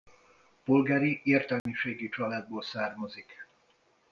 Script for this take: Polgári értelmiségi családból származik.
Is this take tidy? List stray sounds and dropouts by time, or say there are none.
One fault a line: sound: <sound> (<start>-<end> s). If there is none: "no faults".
sound: dropout (1.6-1.7 s)